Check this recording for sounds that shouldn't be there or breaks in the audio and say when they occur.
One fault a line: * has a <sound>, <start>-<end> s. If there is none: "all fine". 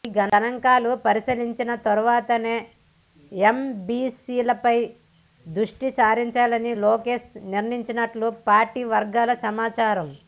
all fine